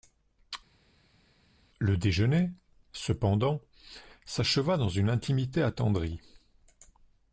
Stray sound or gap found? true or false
false